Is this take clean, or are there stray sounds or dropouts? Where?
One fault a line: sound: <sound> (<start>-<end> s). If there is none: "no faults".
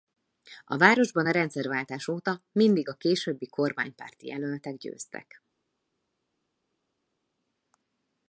no faults